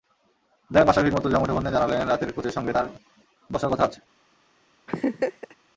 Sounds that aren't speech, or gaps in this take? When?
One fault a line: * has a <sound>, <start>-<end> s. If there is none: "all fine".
* has a laugh, 4.9-5.6 s